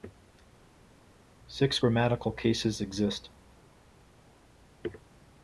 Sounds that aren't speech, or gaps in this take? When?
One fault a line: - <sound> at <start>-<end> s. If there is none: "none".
none